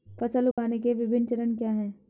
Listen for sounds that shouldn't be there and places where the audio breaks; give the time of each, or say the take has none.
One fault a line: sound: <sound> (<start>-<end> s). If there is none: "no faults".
sound: dropout (0.5-0.6 s)